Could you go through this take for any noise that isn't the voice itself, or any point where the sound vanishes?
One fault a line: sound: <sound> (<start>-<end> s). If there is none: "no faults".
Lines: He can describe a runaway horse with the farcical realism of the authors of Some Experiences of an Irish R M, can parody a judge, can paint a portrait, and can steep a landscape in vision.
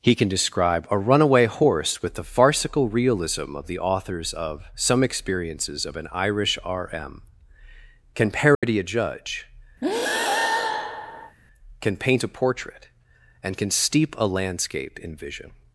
sound: dropout (8.5-8.6 s)
sound: breath (9.8-11.4 s)